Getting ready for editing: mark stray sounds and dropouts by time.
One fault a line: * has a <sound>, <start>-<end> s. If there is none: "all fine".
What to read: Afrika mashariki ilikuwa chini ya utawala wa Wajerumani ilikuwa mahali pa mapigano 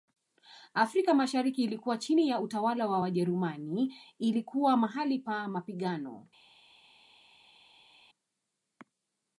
all fine